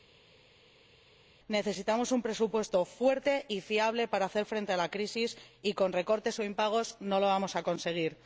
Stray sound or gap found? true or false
false